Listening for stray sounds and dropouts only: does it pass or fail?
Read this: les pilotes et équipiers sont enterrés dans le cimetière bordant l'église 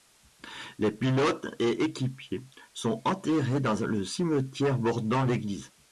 pass